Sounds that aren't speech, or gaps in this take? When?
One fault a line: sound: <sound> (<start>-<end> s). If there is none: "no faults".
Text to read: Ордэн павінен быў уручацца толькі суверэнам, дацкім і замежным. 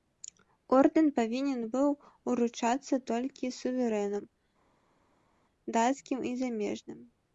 no faults